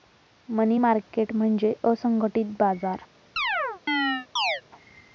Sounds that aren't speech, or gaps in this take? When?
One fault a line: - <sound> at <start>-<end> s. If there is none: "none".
- chirp at 3.4-4.6 s